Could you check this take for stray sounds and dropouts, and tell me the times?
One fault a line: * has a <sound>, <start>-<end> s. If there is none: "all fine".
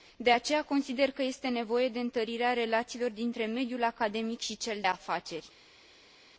all fine